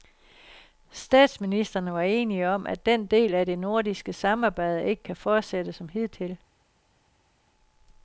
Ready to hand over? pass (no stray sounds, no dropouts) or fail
pass